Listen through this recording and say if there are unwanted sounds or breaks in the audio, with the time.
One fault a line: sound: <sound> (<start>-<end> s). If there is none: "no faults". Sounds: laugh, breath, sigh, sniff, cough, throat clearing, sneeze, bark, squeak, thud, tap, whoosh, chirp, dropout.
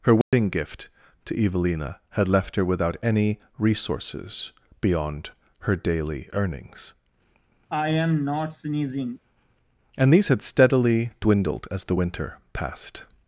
sound: dropout (0.2-0.3 s)
sound: sneeze (7.7-9.2 s)